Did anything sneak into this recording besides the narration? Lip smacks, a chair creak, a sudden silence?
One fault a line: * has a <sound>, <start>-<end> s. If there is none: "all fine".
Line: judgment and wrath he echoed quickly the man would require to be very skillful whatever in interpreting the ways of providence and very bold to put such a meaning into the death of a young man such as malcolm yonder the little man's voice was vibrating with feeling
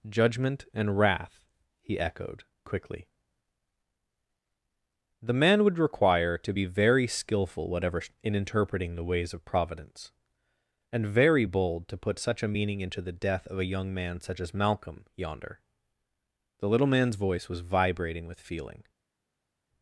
all fine